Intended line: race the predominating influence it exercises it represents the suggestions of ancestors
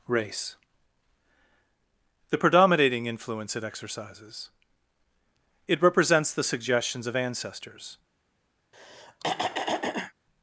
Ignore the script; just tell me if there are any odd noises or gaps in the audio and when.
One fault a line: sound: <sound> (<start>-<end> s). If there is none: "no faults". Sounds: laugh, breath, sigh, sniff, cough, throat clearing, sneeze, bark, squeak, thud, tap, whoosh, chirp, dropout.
sound: throat clearing (8.7-10.1 s)